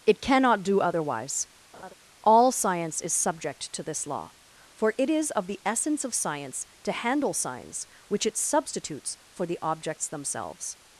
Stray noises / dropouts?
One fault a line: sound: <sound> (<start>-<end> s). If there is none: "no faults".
sound: laugh (1.7-1.9 s)